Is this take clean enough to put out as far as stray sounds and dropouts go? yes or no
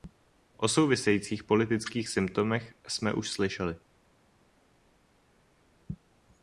yes